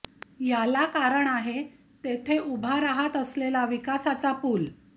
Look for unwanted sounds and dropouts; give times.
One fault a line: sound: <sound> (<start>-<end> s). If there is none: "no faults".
no faults